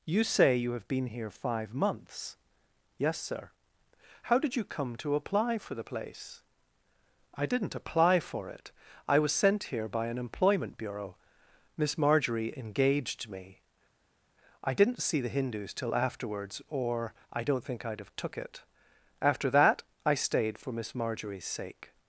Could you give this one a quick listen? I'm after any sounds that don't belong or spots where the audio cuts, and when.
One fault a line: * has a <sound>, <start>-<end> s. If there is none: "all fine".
all fine